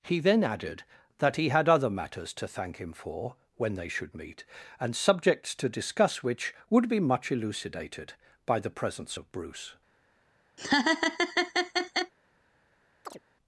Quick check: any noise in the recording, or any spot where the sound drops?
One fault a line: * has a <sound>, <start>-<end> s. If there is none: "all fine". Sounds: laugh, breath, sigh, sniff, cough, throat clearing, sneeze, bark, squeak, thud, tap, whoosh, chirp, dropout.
* has a laugh, 10.6-12.1 s
* has a chirp, 13.0-13.2 s